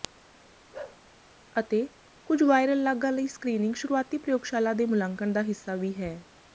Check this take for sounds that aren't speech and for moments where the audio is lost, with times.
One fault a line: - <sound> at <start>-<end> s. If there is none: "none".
- bark at 0.7-1.0 s